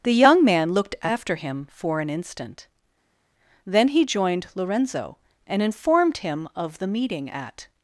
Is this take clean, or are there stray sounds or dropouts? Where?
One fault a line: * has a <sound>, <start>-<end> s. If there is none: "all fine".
all fine